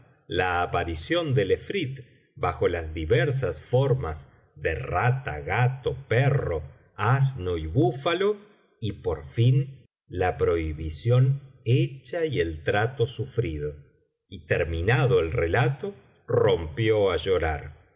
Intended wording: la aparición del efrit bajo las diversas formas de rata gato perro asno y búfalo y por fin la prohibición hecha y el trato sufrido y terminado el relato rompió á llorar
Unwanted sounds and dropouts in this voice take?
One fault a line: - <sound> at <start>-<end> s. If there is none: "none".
none